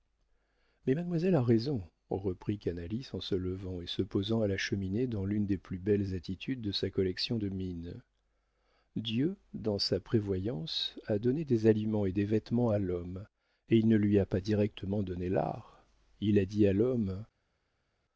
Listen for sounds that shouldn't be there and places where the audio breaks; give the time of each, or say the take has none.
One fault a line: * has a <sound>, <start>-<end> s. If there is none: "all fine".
all fine